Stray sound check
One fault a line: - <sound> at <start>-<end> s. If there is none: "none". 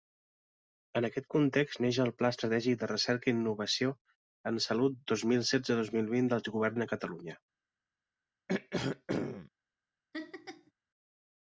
- throat clearing at 8.5-9.5 s
- laugh at 10.1-10.7 s